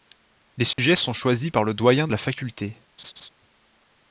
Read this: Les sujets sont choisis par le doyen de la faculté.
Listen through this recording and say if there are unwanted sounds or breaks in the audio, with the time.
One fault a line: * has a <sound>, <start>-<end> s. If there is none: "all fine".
* has a dropout, 0.7-0.8 s
* has a laugh, 3.0-3.3 s